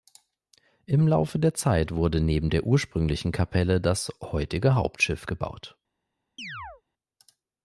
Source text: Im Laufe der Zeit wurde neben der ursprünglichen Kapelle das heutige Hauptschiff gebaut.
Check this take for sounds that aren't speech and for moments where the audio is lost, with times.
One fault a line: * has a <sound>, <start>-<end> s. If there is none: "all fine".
* has a chirp, 6.4-6.8 s